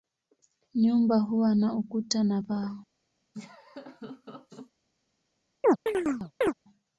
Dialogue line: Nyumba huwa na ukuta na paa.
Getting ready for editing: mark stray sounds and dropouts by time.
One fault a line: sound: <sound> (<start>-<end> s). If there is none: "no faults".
sound: laugh (3.3-4.7 s)
sound: chirp (5.6-6.5 s)